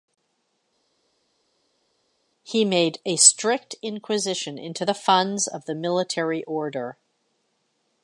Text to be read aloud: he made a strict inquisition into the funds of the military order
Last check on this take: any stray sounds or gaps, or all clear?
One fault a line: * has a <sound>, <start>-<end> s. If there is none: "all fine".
all fine